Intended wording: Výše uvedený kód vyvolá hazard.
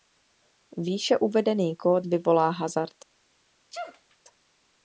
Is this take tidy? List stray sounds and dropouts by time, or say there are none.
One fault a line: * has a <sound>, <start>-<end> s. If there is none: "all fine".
* has a sneeze, 3.7-4.2 s